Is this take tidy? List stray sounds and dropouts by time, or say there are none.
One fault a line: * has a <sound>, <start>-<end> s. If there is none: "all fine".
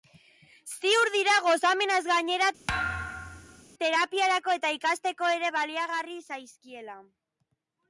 * has a thud, 2.7-3.6 s